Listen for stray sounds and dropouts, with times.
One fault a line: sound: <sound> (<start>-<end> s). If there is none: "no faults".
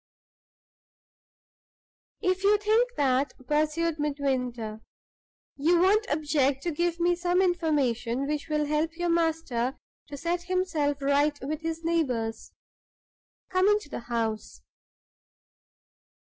no faults